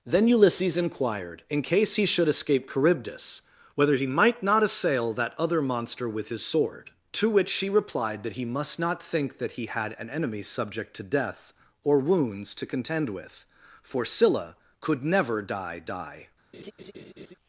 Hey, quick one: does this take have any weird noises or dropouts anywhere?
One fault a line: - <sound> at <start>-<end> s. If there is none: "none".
- laugh at 16.5-17.4 s